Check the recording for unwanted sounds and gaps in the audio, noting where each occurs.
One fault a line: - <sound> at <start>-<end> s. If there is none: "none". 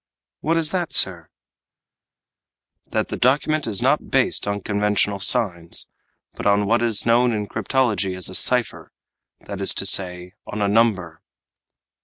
none